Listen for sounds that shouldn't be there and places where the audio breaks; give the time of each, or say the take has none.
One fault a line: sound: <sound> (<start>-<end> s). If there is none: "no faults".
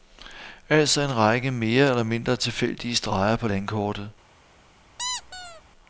sound: squeak (5.0-5.6 s)